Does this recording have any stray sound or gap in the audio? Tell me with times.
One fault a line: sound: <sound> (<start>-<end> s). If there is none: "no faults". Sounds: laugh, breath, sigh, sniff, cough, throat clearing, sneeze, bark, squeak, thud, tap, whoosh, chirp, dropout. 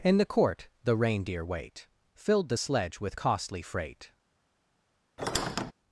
sound: squeak (5.2-5.7 s)